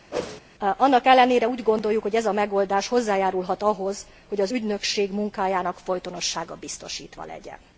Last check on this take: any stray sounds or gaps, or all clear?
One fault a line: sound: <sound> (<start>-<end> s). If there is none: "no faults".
sound: whoosh (0.1-0.4 s)